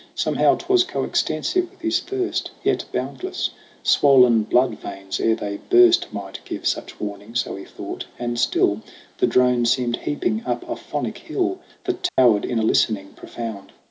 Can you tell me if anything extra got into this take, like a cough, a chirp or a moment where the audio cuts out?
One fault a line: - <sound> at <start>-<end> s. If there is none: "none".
- dropout at 12.1-12.2 s